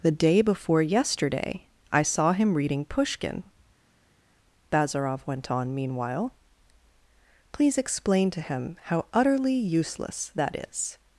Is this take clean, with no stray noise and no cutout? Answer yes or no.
yes